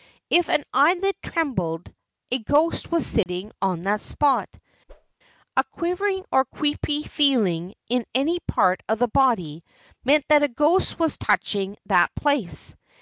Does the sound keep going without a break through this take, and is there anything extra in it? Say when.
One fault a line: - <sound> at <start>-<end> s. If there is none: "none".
- dropout at 3.2-3.3 s
- whoosh at 4.9-5.1 s